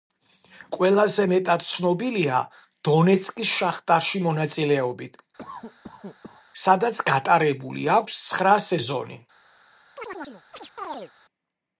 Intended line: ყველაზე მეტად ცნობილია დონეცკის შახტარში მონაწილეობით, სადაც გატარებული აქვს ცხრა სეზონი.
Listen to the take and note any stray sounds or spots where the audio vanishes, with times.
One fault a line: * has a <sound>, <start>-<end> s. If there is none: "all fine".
* has a cough, 5.4-6.5 s
* has a chirp, 10.0-11.1 s